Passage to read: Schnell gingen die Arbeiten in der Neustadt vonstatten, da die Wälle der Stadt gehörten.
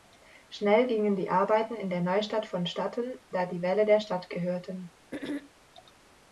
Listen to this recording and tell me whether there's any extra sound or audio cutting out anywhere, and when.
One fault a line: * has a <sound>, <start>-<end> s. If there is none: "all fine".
* has a throat clearing, 5.1-5.5 s